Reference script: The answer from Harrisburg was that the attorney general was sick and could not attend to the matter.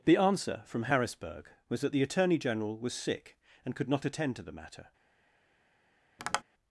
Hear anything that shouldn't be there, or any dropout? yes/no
yes